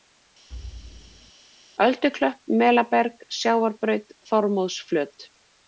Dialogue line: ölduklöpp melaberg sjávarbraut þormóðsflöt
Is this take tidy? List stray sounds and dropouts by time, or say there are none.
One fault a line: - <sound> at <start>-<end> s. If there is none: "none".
- thud at 0.5-1.3 s